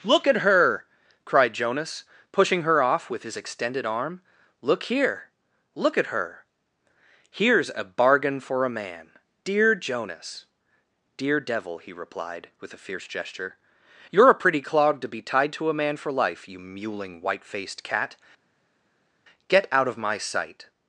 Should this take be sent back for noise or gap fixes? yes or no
no